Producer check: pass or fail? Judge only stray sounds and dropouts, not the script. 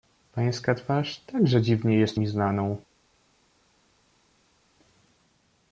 pass